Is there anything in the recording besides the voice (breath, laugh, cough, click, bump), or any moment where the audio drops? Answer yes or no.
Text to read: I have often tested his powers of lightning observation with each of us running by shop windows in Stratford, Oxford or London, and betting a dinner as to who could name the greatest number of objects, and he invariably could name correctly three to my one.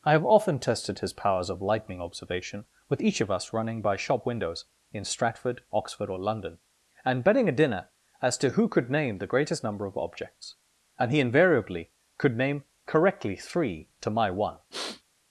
yes